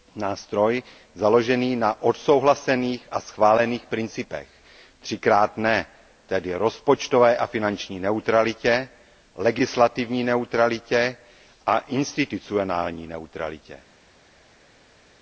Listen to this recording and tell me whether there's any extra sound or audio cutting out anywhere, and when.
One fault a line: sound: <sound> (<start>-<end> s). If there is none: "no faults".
no faults